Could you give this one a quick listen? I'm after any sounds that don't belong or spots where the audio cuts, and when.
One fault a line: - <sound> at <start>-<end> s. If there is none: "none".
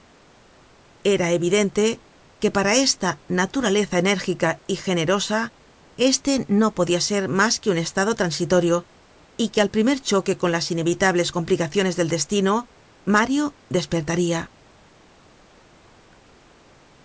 none